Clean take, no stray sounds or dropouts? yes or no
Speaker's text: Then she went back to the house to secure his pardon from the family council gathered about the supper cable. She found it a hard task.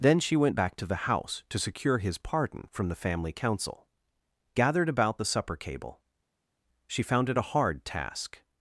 yes